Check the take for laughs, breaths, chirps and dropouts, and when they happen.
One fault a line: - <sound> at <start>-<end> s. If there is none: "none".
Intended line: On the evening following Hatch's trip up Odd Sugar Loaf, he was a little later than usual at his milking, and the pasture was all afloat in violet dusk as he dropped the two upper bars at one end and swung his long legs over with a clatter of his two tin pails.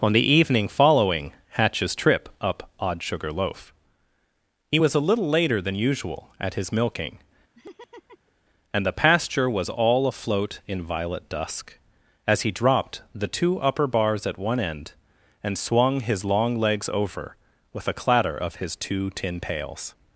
- laugh at 7.5-8.3 s